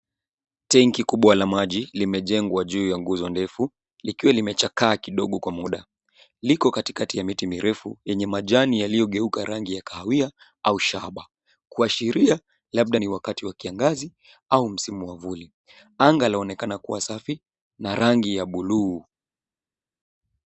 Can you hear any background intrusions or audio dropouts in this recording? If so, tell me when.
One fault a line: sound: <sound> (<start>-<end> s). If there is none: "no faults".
no faults